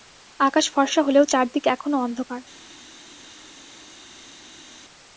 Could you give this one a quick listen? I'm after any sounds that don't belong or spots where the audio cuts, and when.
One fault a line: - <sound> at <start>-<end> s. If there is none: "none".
none